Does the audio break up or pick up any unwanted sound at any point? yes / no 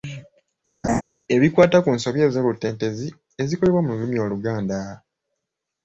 yes